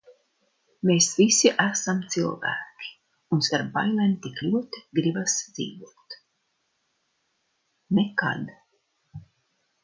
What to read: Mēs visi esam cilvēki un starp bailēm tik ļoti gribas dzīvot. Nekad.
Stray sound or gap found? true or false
false